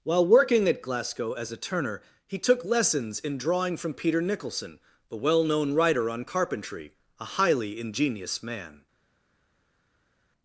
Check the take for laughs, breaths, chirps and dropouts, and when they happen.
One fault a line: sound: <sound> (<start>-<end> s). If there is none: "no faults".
no faults